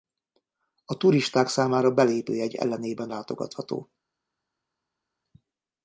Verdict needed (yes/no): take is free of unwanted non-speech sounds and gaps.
yes